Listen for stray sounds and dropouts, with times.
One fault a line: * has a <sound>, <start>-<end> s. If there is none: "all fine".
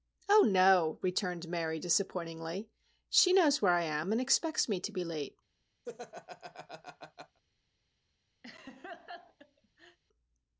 * has a laugh, 5.8-7.4 s
* has a laugh, 8.4-10.0 s